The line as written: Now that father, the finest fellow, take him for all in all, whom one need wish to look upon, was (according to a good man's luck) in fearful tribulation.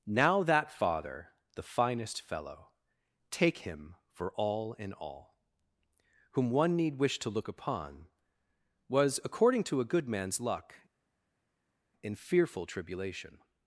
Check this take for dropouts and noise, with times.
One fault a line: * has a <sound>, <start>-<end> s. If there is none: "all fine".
all fine